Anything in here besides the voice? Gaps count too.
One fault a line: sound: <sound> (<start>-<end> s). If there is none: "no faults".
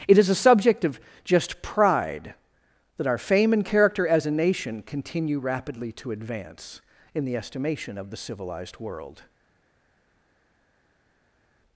no faults